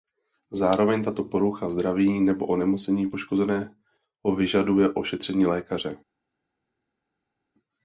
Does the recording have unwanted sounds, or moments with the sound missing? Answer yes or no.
no